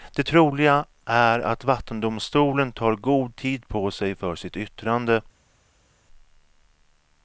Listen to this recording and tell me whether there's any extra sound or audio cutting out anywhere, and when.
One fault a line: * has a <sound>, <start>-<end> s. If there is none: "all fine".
all fine